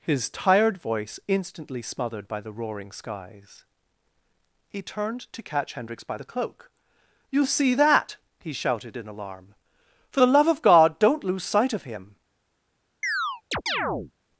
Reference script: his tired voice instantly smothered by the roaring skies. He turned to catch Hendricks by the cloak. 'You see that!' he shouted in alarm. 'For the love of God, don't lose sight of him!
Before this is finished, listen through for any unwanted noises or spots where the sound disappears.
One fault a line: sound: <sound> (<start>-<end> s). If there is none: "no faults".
sound: chirp (13.0-14.1 s)